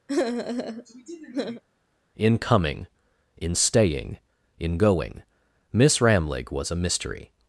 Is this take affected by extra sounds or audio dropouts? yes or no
yes